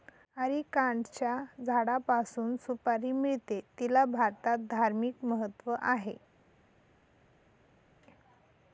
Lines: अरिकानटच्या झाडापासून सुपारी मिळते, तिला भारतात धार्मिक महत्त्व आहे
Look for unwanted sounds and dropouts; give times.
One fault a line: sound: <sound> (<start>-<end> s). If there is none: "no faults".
no faults